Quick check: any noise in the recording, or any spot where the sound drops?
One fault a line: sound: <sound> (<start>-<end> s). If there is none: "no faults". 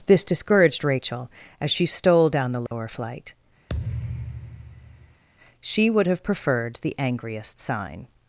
sound: dropout (2.7-2.7 s)
sound: thud (3.7-5.2 s)